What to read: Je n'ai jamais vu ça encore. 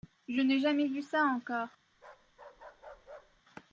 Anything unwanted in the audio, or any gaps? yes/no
yes